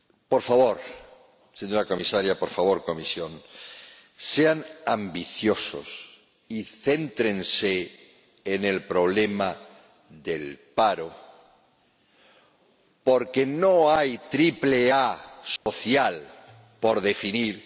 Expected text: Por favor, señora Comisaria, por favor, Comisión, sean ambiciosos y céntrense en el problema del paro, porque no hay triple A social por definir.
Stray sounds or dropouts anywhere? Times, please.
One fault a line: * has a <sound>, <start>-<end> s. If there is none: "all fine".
* has a dropout, 15.6-15.7 s